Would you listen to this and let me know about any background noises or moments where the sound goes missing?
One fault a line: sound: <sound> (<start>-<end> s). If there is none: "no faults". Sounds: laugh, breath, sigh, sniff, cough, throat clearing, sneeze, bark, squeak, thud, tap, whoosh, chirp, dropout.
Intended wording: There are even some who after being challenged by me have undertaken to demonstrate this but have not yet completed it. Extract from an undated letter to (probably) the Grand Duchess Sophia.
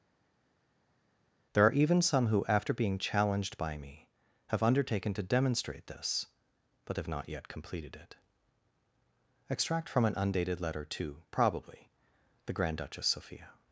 no faults